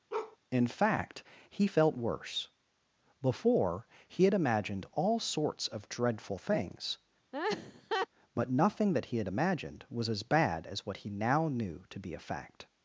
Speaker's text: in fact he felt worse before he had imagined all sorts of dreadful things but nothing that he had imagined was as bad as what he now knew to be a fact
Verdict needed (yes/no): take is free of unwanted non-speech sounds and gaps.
no